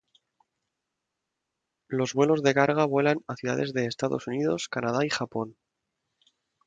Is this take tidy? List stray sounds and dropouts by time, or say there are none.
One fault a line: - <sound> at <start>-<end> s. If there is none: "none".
none